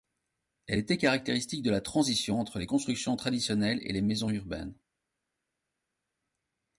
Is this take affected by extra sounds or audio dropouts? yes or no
no